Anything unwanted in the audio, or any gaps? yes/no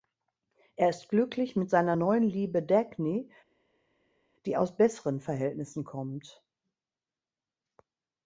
no